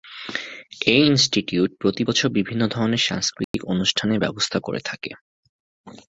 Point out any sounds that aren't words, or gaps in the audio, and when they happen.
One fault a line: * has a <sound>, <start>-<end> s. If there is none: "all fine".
* has a dropout, 3.4-3.5 s